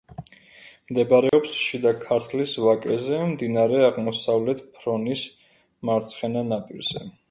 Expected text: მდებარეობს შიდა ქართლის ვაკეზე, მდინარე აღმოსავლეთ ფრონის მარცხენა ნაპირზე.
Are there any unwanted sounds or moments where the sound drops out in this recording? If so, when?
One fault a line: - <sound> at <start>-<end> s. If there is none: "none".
- dropout at 1.3-1.3 s